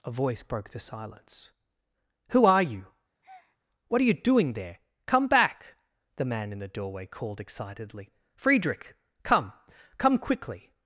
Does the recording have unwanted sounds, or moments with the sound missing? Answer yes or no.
yes